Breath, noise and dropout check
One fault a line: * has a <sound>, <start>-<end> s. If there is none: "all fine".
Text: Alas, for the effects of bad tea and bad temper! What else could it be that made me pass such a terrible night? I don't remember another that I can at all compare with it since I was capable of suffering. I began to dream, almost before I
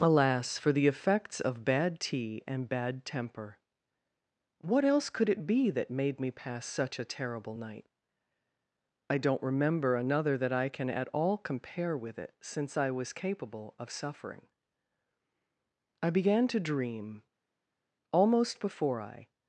all fine